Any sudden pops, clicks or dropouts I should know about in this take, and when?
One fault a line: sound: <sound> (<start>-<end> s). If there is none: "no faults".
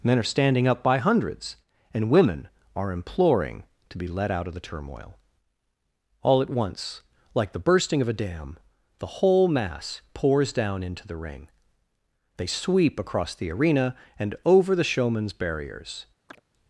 sound: chirp (16.3-16.4 s)